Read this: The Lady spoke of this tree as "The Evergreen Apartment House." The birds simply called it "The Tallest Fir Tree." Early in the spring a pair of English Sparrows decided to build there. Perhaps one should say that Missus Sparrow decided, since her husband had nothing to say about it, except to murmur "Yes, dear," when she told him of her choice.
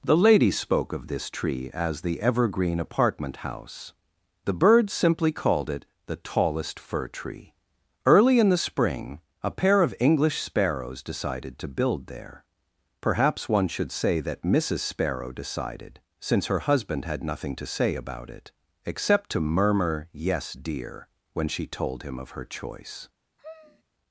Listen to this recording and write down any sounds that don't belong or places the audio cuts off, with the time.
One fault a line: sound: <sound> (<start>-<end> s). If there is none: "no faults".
sound: sigh (23.4-23.8 s)